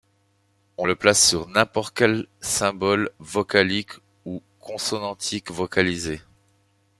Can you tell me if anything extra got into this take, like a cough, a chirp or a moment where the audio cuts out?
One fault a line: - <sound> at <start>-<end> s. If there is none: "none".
none